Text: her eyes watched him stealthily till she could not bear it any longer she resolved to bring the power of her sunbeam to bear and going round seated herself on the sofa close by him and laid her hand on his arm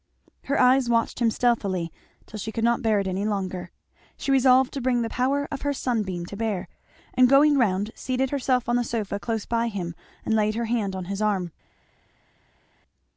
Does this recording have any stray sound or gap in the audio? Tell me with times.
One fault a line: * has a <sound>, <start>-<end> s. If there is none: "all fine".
all fine